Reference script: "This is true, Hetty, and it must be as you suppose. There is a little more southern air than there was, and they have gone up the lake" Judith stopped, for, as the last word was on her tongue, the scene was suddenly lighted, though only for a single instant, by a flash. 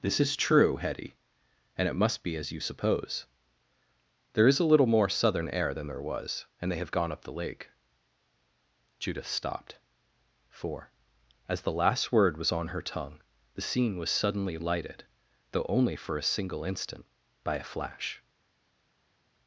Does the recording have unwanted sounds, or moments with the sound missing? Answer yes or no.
no